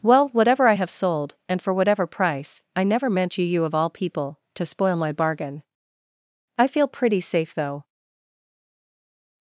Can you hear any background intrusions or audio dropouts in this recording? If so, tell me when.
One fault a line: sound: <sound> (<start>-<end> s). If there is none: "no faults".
no faults